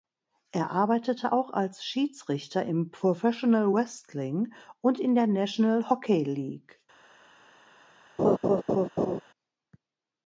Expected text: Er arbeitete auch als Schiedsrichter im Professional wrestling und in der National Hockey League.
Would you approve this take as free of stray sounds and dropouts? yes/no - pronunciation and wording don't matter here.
no